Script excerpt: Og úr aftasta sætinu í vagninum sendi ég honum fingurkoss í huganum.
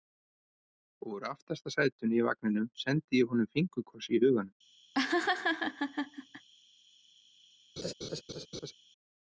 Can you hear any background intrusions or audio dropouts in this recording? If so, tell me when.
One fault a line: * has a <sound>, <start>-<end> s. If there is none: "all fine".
* has a laugh, 4.9-6.5 s
* has a laugh, 7.8-8.7 s